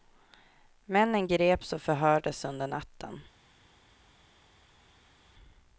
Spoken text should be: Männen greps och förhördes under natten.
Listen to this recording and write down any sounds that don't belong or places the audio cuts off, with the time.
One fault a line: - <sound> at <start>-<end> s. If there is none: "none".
none